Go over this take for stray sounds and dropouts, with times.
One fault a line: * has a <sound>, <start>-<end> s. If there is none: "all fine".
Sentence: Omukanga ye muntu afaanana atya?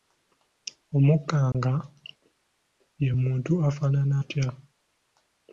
* has a dropout, 1.5-1.5 s